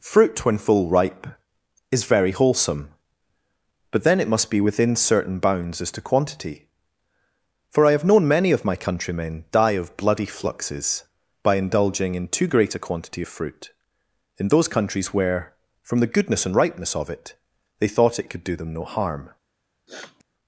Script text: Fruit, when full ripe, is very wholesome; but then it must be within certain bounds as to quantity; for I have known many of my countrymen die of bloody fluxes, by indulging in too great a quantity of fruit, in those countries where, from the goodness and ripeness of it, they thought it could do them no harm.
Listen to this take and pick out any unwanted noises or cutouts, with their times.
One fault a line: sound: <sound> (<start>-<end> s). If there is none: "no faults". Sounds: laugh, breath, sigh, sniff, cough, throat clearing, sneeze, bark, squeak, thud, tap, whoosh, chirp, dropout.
sound: sniff (19.9-20.2 s)